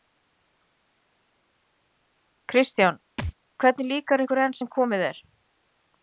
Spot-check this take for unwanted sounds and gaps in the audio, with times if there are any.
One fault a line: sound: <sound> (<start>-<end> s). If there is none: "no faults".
sound: thud (3.2-3.3 s)